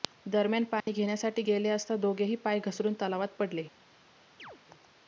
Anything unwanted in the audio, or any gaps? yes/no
yes